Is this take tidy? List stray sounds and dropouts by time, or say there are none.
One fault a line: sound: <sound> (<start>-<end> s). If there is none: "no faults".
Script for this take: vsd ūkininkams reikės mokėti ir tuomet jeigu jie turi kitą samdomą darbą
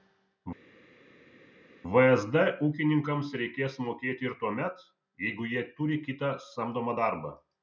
no faults